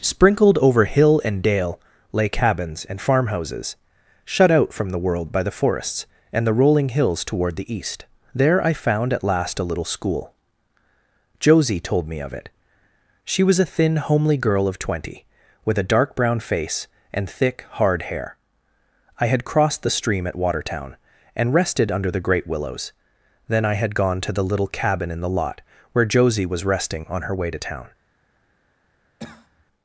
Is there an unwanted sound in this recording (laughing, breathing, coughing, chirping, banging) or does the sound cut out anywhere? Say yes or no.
yes